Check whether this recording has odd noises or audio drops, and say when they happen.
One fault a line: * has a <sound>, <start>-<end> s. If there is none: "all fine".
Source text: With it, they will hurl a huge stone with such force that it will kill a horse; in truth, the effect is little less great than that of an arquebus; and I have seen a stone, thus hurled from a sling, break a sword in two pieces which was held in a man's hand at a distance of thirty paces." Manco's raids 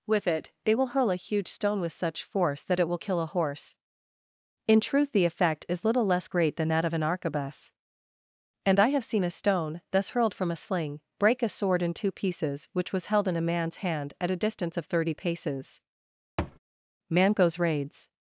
* has a thud, 16.4-16.6 s